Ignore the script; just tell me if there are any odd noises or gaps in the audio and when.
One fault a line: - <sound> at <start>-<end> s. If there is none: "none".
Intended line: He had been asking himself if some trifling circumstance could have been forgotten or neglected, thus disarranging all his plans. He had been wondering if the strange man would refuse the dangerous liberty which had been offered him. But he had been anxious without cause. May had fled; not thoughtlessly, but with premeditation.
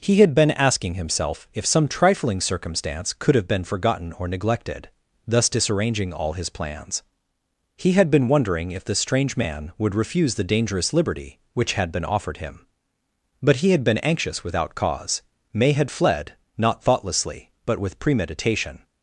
none